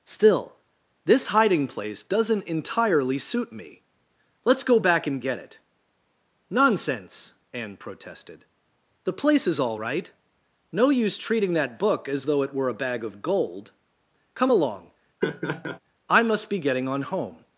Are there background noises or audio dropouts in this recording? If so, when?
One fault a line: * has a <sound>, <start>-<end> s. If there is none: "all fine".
* has a laugh, 15.2-15.8 s